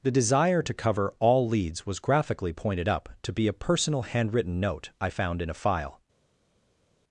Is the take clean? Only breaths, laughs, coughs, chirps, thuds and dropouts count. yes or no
yes